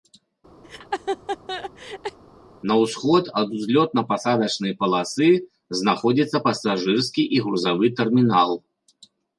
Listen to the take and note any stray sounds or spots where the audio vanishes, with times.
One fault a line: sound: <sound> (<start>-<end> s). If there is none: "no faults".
sound: laugh (0.6-2.2 s)